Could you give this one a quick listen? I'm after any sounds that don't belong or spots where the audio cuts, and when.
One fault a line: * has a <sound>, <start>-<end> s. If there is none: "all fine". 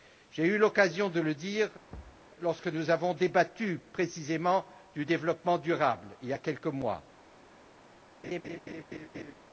* has a thud, 1.9-2.3 s
* has a laugh, 8.2-9.3 s